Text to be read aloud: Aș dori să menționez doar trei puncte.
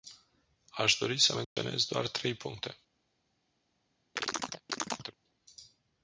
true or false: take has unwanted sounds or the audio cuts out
true